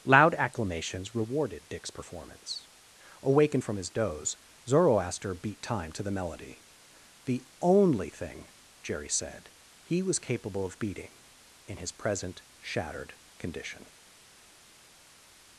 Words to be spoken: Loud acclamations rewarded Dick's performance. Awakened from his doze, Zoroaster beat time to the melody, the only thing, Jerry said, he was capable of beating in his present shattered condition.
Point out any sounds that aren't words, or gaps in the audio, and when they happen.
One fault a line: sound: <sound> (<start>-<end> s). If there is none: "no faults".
no faults